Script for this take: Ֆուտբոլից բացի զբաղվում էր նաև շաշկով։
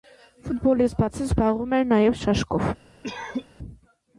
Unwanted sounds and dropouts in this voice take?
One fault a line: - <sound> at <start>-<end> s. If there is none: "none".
- cough at 3.0-3.5 s